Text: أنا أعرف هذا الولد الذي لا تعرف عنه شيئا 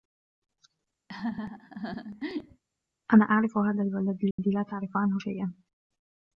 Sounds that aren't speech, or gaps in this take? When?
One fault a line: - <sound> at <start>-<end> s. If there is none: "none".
- laugh at 1.1-2.6 s
- dropout at 4.3-4.4 s